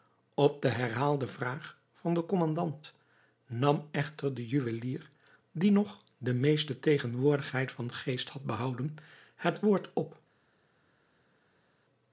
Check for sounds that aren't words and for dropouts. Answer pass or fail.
pass